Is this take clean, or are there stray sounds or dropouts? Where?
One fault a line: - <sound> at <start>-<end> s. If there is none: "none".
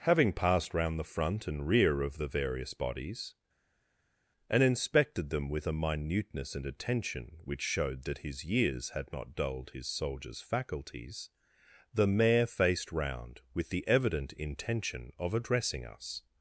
none